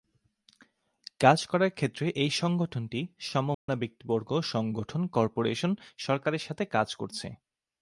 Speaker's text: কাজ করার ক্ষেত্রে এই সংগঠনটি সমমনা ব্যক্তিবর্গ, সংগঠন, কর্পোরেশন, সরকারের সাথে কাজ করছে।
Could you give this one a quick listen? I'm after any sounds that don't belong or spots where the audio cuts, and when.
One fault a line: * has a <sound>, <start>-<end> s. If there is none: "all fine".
* has a dropout, 3.5-3.7 s